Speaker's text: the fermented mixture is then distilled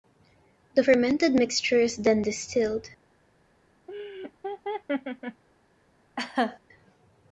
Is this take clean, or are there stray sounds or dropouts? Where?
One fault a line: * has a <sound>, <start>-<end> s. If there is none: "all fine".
* has a laugh, 3.9-5.4 s
* has a laugh, 6.2-6.6 s